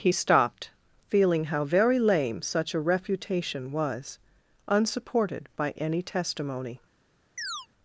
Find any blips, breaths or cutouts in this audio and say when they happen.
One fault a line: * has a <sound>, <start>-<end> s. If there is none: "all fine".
* has a chirp, 7.4-7.7 s